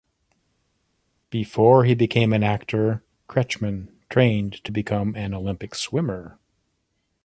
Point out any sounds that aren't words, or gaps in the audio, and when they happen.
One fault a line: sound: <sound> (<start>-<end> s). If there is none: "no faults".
no faults